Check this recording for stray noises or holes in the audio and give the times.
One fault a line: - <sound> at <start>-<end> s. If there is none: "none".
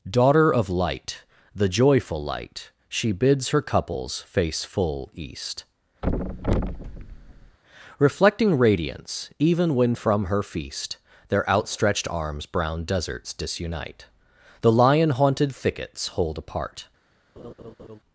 - thud at 6.0-7.6 s
- laugh at 17.4-18.0 s